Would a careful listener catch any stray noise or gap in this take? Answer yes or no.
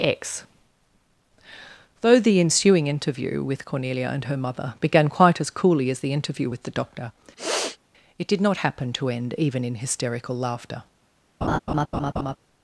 yes